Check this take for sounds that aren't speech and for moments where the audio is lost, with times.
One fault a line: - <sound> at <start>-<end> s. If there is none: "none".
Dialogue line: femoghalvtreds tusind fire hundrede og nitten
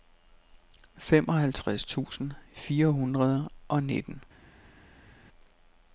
none